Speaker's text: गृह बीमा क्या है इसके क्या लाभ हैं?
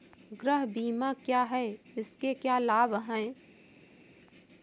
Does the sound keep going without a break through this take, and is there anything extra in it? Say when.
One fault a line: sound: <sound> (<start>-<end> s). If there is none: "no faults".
no faults